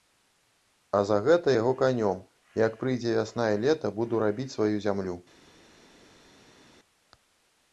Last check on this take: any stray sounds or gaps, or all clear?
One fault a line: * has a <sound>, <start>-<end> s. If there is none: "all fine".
all fine